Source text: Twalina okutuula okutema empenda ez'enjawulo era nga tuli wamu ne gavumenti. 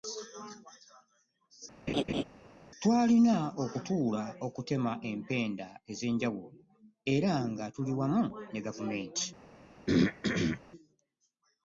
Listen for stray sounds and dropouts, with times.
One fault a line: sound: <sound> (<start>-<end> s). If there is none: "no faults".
sound: laugh (1.9-2.2 s)
sound: throat clearing (9.9-10.6 s)